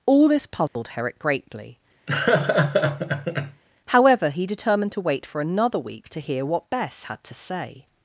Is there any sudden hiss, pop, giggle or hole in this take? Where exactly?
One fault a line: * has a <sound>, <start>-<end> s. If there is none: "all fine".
* has a dropout, 0.7-0.8 s
* has a laugh, 2.1-3.6 s